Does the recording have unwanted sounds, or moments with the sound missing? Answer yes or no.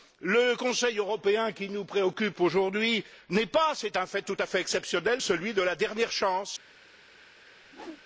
yes